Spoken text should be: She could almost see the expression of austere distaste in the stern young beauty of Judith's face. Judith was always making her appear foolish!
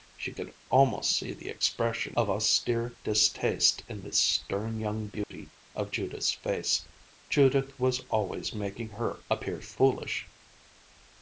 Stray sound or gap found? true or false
true